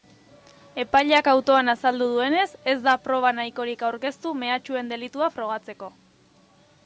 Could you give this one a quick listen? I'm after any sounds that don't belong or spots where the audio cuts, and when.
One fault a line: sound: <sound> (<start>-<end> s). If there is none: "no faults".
no faults